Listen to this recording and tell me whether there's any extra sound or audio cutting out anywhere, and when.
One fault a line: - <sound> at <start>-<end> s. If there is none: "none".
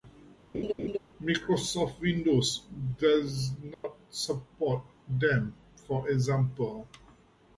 - laugh at 0.5-1.0 s
- dropout at 3.7-3.8 s